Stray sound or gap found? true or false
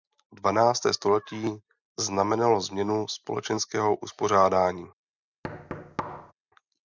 true